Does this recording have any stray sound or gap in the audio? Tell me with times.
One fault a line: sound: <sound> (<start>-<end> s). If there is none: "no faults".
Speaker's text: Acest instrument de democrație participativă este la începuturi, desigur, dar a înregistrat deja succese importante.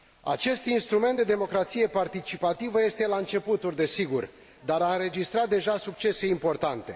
no faults